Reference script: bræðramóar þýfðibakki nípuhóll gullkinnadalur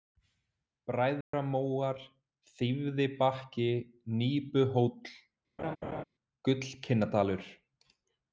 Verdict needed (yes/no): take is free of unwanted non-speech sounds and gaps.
no